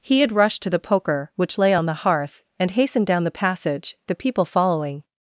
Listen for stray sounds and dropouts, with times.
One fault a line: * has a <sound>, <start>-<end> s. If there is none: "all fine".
all fine